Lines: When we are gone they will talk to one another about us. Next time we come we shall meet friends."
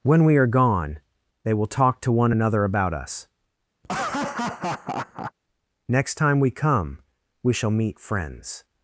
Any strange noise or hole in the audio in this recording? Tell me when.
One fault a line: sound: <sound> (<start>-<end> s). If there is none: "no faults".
sound: laugh (3.8-5.3 s)